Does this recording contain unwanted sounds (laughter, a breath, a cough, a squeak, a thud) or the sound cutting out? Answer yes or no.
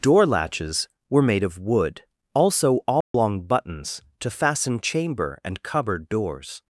yes